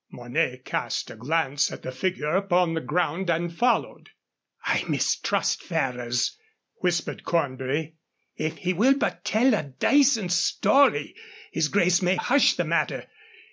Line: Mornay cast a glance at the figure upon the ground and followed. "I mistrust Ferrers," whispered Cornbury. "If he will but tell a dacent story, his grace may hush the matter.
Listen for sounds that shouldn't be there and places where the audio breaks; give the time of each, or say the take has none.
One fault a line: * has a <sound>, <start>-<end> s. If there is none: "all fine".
all fine